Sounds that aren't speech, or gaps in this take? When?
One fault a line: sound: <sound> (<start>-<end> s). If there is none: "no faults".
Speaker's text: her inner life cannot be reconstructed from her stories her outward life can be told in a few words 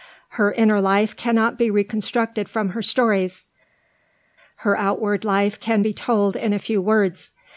no faults